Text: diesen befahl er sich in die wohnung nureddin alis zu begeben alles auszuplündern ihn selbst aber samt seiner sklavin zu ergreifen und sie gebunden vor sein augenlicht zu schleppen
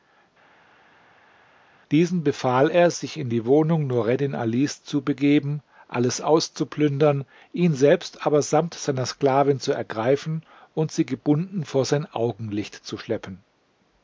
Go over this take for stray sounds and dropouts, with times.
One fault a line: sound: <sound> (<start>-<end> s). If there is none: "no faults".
no faults